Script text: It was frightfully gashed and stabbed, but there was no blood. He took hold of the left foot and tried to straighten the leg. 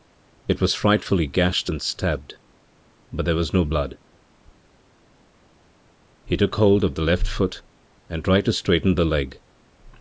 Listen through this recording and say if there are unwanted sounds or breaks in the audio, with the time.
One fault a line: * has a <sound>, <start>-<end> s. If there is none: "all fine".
all fine